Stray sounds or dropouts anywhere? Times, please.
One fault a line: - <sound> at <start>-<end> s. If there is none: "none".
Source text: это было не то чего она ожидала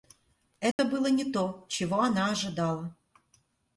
- dropout at 0.7-0.8 s